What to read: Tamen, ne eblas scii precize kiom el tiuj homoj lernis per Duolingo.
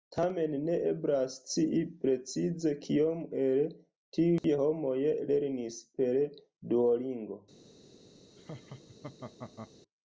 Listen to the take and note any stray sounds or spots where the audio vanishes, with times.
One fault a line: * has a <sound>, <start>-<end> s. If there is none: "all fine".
* has a dropout, 4.4-4.4 s
* has a laugh, 8.4-9.7 s